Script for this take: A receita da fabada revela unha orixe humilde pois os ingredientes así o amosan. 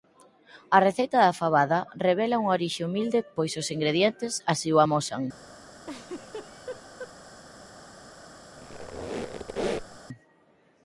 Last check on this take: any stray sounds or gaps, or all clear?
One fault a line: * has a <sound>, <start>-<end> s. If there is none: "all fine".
* has a laugh, 5.8-7.1 s
* has a squeak, 8.6-10.0 s